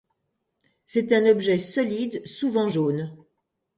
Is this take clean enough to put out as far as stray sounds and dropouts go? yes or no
yes